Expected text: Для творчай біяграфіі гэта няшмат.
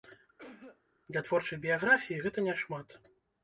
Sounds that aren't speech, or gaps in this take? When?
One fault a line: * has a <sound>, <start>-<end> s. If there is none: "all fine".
* has a cough, 0.4-0.8 s